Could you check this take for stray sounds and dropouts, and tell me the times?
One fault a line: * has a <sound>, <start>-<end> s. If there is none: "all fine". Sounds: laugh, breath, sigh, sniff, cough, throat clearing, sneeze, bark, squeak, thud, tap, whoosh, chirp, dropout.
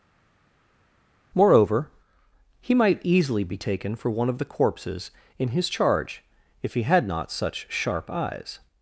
all fine